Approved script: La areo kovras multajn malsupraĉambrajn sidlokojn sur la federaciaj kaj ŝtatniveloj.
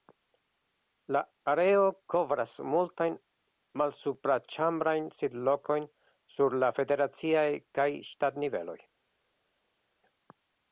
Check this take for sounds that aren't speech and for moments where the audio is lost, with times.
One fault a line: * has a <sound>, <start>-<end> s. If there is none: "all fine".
all fine